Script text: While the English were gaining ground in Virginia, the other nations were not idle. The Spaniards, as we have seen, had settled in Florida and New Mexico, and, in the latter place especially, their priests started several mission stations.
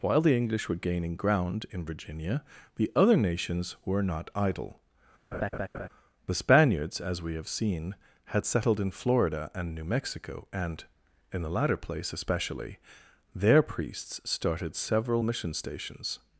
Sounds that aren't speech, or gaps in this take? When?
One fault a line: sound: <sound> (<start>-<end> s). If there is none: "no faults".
sound: laugh (5.3-5.9 s)